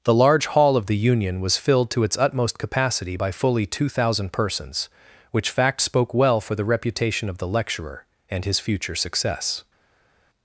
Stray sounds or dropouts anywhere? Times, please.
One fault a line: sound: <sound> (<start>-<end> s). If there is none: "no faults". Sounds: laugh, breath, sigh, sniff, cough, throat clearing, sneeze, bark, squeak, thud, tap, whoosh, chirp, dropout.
no faults